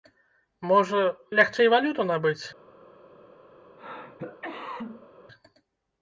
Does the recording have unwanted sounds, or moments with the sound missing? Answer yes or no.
yes